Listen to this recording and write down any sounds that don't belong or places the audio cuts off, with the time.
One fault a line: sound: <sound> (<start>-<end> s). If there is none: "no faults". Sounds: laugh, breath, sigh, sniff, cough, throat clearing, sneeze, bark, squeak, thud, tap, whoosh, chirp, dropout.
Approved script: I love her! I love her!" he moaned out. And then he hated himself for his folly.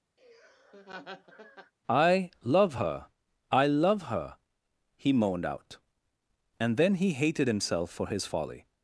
sound: laugh (0.2-1.7 s)